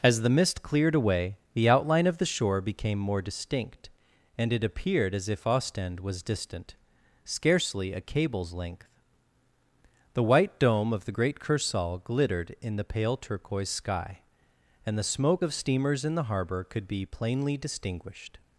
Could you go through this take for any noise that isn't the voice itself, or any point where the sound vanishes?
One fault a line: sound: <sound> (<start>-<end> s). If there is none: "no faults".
no faults